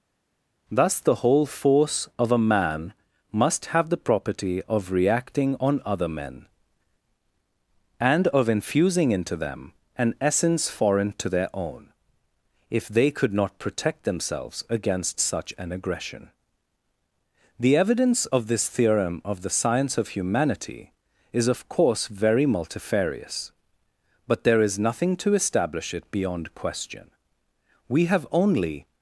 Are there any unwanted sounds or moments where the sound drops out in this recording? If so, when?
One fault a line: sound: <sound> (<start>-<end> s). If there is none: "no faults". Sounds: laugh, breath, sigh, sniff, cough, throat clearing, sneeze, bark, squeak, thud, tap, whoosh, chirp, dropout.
no faults